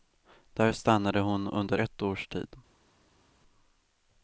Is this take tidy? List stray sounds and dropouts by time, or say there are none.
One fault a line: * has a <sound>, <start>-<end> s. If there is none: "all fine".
all fine